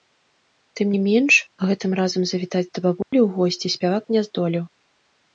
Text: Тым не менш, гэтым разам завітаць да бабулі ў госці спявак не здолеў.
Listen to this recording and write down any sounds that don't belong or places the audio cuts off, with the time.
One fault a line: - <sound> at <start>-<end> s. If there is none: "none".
- dropout at 3.0-3.1 s